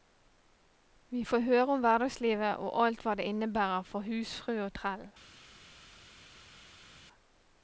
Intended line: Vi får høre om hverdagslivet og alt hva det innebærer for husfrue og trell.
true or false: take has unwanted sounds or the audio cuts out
false